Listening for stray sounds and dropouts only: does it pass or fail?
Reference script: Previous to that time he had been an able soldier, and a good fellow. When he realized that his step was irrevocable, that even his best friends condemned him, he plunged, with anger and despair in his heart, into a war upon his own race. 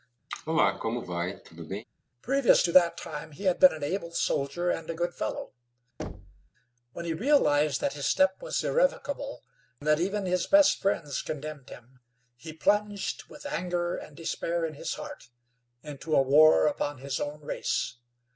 fail